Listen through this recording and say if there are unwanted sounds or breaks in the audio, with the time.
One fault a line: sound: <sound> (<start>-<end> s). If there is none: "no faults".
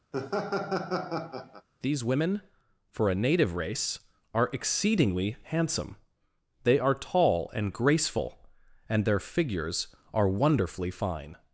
sound: laugh (0.1-1.7 s)